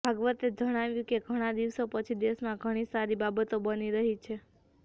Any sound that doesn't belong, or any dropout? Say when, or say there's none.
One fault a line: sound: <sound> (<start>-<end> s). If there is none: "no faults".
no faults